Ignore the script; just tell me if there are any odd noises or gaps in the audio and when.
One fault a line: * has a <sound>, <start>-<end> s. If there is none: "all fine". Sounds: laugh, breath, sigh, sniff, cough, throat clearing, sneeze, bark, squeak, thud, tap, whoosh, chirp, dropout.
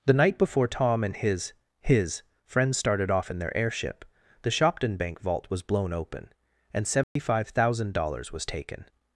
* has a dropout, 7.0-7.2 s